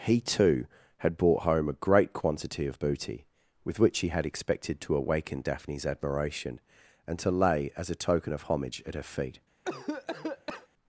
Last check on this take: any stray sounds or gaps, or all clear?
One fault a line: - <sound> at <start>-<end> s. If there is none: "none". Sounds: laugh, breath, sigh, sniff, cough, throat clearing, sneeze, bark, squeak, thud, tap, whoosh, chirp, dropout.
- cough at 9.6-10.7 s